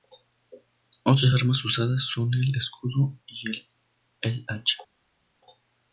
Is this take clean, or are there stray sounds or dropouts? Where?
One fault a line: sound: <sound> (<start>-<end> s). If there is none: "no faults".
no faults